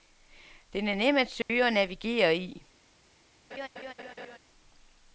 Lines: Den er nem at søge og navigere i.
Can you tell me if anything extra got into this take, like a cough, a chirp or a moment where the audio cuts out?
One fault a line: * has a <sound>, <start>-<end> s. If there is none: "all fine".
* has a dropout, 1.4-1.5 s
* has a laugh, 3.5-4.4 s